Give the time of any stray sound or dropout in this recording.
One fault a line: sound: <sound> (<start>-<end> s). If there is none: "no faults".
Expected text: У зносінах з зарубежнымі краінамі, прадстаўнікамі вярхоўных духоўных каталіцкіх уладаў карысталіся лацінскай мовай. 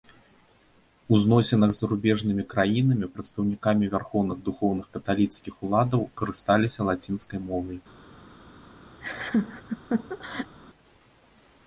sound: laugh (9.0-10.6 s)